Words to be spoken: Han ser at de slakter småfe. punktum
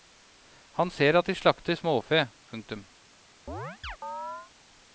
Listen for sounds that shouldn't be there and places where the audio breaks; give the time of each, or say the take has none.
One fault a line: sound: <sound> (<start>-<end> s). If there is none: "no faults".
sound: chirp (3.5-4.5 s)